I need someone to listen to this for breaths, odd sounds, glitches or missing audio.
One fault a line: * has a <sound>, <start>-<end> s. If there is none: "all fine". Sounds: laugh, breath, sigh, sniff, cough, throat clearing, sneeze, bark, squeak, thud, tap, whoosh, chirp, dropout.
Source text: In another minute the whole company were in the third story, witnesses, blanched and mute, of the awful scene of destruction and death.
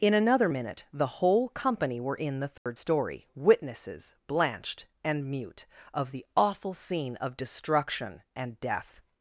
* has a dropout, 2.6-2.7 s